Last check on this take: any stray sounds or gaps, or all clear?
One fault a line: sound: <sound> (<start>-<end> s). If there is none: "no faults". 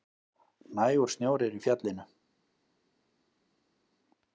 no faults